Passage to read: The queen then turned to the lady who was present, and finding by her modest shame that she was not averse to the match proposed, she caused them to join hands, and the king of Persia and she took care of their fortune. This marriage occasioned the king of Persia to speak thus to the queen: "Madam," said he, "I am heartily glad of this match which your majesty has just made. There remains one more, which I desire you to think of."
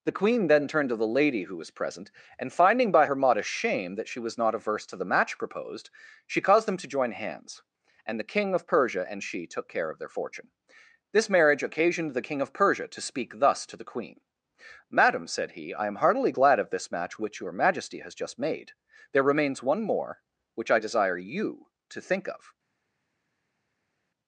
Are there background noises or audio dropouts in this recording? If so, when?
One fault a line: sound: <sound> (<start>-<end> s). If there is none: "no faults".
no faults